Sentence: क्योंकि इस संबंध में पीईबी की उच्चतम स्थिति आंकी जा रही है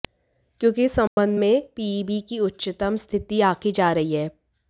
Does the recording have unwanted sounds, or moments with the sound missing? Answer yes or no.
yes